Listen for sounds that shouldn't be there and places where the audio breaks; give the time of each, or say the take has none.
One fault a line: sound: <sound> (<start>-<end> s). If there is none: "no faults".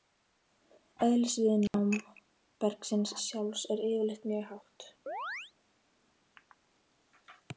sound: dropout (1.7-1.7 s)
sound: chirp (5.1-5.5 s)